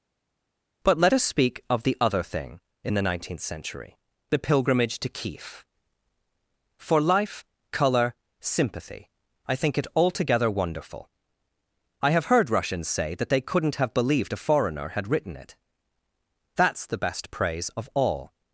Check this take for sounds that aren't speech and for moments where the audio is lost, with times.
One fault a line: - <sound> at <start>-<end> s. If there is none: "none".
none